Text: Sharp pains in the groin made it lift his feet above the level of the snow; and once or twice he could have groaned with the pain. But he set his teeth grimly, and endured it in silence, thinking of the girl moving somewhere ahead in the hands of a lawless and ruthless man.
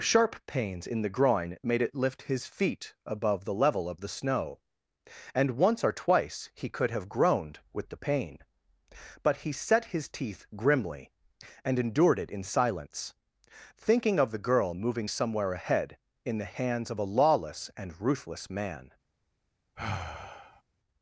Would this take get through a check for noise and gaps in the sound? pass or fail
fail